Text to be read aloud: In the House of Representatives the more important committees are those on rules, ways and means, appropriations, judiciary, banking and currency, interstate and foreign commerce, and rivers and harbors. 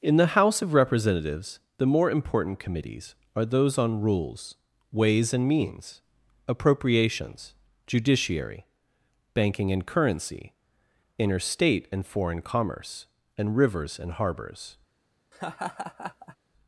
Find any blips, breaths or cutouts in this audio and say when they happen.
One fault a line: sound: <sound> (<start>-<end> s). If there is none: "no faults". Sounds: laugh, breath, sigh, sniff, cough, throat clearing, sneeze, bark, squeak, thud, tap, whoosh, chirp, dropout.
sound: laugh (15.3-16.4 s)